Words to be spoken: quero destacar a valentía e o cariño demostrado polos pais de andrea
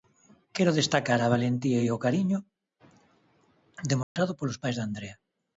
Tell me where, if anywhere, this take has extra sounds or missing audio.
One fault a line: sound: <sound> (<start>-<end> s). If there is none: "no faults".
sound: dropout (4.0-4.2 s)